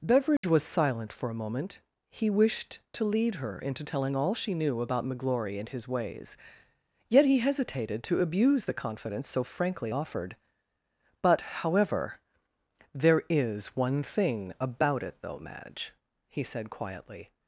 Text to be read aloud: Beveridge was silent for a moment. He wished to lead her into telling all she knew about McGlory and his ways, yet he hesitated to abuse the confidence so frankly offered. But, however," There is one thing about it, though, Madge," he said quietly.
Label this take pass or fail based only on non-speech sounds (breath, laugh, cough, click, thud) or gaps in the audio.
fail